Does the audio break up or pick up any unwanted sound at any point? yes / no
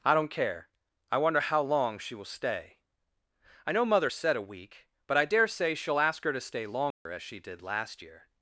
yes